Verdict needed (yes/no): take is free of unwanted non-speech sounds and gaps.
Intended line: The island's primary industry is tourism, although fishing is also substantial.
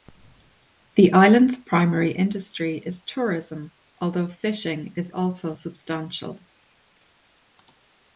yes